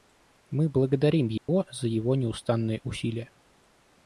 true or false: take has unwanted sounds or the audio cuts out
true